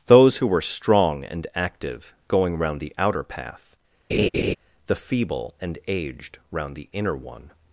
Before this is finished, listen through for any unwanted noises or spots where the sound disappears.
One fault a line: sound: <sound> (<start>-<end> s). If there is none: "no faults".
sound: laugh (4.1-4.6 s)